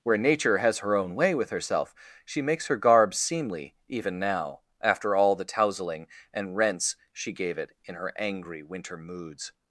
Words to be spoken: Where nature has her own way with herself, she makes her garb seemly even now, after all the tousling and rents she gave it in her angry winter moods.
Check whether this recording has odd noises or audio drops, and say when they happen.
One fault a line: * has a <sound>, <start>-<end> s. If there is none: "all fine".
all fine